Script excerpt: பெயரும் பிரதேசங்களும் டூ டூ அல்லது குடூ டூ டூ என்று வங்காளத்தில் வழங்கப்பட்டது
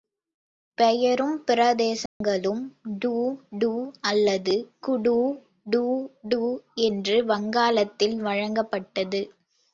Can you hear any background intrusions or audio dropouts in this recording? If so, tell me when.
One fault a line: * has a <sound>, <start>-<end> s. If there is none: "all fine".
* has a dropout, 2.1-2.2 s